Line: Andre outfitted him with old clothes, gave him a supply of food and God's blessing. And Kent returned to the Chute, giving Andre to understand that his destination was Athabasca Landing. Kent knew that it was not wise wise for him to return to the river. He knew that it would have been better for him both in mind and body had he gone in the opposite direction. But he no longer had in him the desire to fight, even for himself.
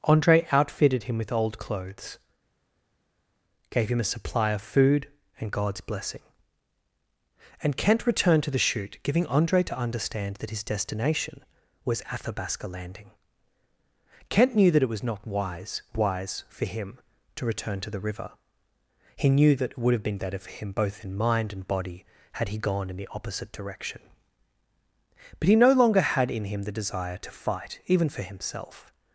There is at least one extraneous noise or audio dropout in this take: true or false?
false